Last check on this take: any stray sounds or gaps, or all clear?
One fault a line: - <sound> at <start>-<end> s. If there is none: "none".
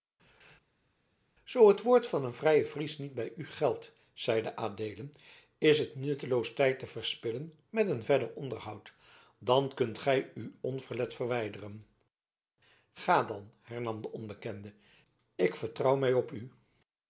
none